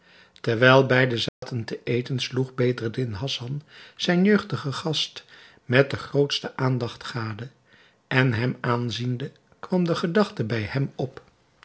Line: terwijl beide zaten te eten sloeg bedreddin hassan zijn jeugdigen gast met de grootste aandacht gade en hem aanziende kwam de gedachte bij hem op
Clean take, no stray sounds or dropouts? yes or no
no